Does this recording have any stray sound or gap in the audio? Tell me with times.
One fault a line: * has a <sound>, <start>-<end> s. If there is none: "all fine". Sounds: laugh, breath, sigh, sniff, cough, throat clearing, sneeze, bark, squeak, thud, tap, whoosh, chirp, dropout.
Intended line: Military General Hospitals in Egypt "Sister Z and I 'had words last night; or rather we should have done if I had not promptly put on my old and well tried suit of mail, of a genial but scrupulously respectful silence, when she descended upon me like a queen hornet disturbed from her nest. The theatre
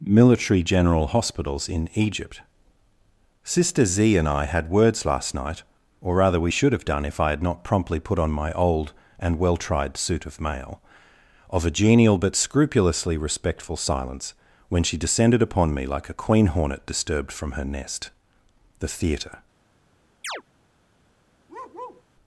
* has a chirp, 20.2-20.4 s
* has a bark, 21.5-22.0 s